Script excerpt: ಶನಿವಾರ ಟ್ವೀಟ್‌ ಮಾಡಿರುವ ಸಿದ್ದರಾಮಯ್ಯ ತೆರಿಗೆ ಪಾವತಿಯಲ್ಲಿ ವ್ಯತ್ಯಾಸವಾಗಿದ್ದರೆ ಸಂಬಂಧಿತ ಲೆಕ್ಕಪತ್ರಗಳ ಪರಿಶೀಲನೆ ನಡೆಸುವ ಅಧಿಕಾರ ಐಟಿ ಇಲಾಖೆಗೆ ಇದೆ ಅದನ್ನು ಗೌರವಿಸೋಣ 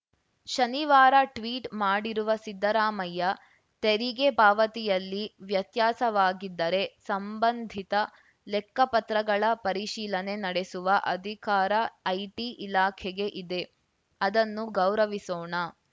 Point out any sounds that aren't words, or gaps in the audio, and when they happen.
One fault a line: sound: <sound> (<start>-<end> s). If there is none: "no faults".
no faults